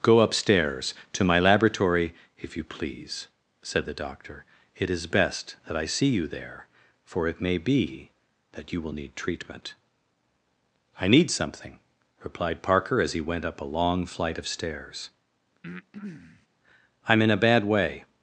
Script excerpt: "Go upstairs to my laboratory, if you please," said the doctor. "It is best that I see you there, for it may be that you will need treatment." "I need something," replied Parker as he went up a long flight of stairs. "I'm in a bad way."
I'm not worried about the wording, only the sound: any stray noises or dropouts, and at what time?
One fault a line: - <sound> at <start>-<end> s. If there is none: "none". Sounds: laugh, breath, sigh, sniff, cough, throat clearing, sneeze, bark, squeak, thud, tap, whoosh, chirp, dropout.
- breath at 15.6-16.5 s